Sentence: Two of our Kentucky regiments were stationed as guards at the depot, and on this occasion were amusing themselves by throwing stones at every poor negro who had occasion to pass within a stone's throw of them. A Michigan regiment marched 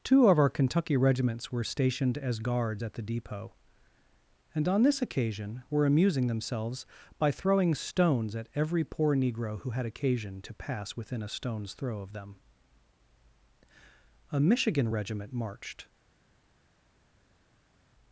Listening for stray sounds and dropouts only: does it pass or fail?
pass